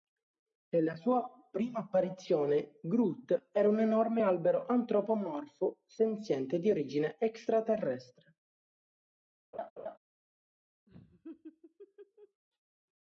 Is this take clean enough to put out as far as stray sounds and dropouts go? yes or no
no